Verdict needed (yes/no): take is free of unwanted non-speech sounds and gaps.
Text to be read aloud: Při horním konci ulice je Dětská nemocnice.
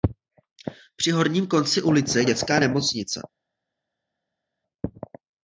yes